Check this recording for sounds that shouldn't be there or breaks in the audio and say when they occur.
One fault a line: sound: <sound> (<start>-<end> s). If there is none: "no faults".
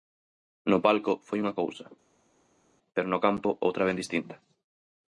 no faults